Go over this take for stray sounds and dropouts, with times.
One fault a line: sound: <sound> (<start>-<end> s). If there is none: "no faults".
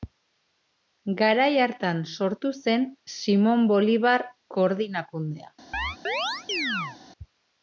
sound: chirp (5.7-7.0 s)